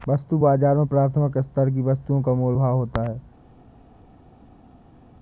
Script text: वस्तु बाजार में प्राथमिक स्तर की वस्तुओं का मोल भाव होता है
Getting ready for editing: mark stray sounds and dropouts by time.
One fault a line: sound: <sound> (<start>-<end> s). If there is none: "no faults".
no faults